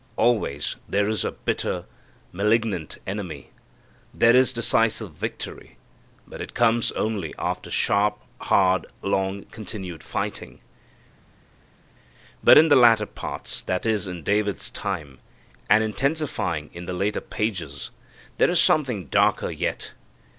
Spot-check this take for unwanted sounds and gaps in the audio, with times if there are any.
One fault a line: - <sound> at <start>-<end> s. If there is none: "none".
none